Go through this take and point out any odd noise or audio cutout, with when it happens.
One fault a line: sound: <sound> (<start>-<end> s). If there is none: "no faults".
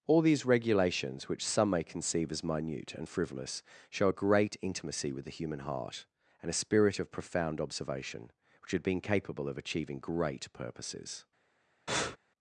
sound: breath (11.9-12.2 s)